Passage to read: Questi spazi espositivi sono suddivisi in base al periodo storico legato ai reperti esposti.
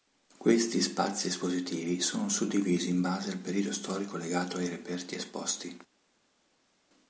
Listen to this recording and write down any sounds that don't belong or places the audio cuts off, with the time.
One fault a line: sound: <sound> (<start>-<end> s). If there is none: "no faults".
no faults